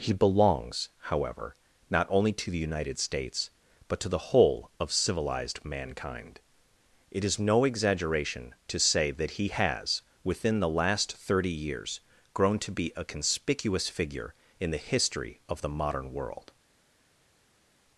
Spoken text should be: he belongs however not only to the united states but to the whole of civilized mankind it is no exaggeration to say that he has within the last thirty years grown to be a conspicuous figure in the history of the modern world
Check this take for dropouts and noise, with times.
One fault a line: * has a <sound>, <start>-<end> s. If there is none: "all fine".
all fine